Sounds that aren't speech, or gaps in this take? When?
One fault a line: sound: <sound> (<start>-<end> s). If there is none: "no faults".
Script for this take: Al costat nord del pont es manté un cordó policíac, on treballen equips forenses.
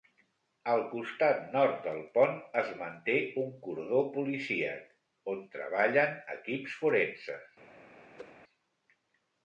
sound: whoosh (8.2-8.3 s)